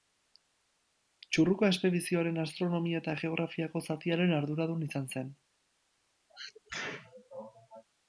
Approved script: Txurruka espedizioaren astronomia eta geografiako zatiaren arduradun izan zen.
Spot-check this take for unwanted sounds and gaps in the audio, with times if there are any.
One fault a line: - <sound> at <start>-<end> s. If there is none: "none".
- sneeze at 6.3-7.8 s